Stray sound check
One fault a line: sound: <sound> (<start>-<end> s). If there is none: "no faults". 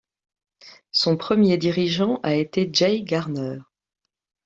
no faults